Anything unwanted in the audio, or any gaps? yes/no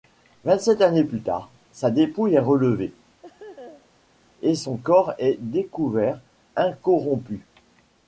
yes